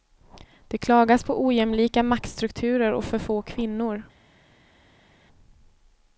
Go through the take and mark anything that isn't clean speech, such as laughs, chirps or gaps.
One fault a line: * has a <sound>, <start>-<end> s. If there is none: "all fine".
all fine